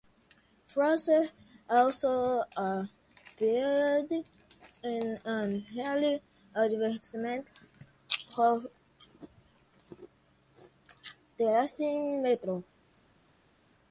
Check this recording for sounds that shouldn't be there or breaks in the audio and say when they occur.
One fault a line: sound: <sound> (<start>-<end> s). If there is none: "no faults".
no faults